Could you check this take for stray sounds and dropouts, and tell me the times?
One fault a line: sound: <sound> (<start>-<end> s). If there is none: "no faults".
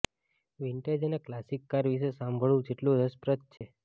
sound: dropout (3.6-3.6 s)